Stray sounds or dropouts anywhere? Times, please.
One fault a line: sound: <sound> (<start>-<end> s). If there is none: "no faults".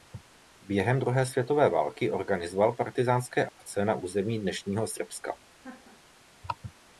sound: dropout (3.5-3.6 s)
sound: laugh (5.6-6.0 s)